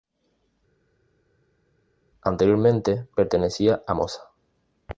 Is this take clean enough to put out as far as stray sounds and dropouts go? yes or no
yes